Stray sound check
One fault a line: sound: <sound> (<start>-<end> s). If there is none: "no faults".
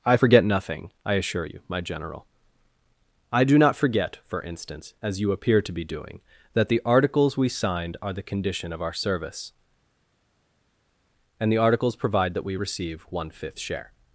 no faults